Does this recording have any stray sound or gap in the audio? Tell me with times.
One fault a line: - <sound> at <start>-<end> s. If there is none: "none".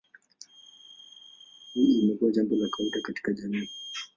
none